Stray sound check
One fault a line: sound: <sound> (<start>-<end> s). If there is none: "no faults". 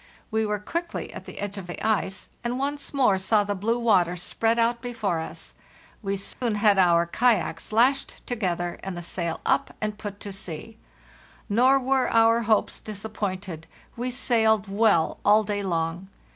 sound: dropout (6.3-6.4 s)